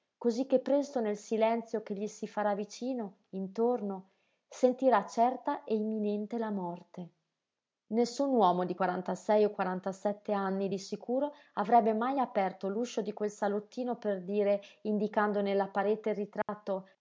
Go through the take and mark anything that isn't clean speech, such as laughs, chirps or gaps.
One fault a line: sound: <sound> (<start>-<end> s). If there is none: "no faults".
sound: dropout (16.4-16.5 s)